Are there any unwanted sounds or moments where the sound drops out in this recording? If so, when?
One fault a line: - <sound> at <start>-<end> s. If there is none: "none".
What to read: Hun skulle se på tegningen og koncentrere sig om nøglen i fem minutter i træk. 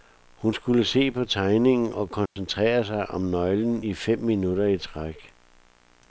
- dropout at 2.3-2.4 s